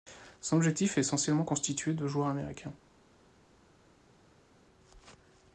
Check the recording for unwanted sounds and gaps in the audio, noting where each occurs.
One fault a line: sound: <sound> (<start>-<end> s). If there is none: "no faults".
no faults